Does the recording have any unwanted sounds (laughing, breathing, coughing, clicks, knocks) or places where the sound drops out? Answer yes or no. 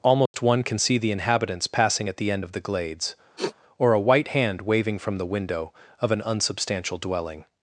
yes